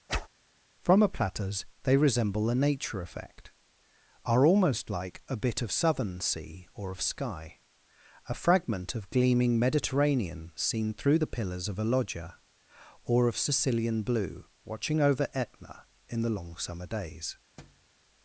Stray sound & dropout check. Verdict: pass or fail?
fail